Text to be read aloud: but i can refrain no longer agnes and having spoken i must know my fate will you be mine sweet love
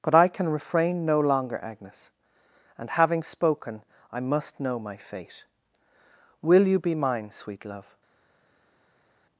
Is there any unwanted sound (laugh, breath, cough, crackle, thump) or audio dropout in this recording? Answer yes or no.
no